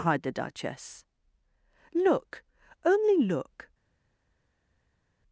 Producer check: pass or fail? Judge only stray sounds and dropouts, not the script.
pass